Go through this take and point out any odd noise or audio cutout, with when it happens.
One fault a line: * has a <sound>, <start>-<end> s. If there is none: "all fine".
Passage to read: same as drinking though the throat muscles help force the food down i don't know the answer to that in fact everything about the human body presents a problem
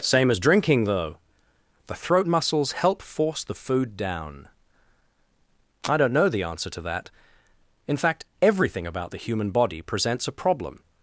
all fine